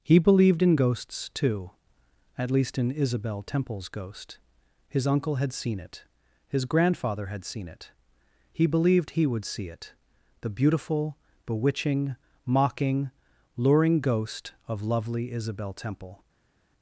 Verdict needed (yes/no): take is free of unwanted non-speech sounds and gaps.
yes